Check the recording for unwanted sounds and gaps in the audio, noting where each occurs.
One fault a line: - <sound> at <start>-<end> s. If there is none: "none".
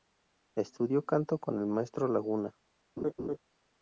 - laugh at 3.0-3.4 s